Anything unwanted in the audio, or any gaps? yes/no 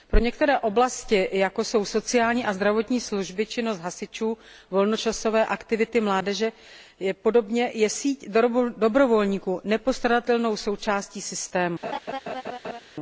yes